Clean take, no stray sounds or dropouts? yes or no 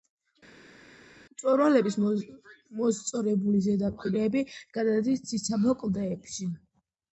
yes